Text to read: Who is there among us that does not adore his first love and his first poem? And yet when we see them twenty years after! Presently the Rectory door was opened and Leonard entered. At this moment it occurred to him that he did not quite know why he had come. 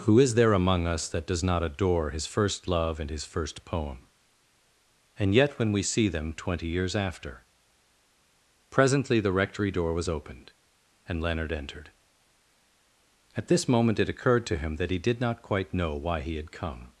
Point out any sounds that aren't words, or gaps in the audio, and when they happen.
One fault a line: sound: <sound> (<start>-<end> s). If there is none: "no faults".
no faults